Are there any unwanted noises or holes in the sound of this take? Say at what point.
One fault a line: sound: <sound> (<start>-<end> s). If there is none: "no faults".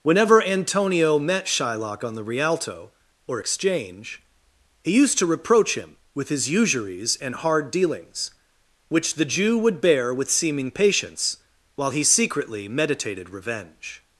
no faults